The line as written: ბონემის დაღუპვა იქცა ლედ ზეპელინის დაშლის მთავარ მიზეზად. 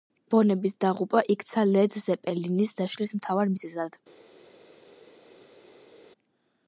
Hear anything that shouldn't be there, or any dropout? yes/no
no